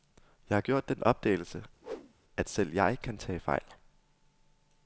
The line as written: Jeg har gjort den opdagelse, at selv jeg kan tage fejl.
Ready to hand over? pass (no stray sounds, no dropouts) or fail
fail